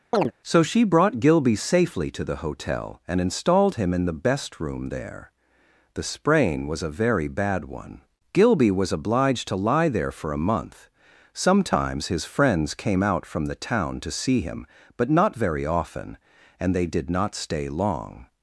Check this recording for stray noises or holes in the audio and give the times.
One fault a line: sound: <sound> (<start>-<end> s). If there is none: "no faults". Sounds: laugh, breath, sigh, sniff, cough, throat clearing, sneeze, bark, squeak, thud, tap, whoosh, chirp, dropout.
sound: chirp (0.1-0.3 s)